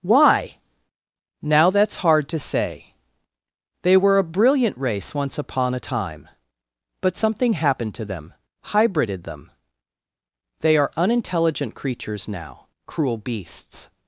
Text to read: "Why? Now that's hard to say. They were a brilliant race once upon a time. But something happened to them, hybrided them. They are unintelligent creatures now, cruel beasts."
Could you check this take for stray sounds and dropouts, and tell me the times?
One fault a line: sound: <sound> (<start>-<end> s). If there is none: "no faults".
no faults